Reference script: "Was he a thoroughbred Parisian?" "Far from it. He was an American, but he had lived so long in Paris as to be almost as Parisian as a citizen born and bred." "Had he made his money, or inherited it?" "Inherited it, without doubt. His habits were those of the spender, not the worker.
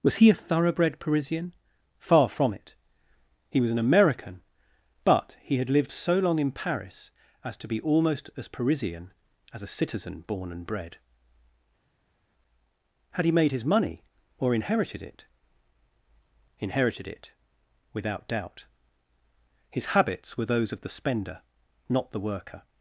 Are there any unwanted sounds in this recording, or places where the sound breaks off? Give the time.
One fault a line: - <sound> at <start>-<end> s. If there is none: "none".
none